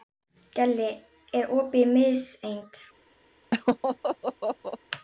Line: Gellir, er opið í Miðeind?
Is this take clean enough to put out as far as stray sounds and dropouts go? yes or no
no